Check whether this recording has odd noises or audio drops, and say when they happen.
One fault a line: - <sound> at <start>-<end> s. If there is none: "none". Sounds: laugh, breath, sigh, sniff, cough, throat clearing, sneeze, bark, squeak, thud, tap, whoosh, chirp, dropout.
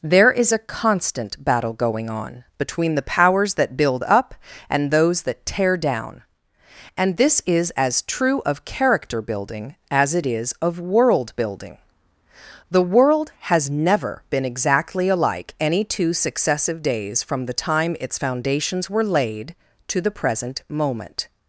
none